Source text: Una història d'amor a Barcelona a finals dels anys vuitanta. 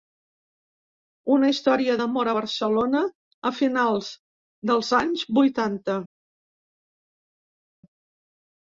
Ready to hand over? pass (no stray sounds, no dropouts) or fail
pass